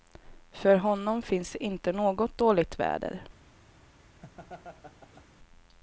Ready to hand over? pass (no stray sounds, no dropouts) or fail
fail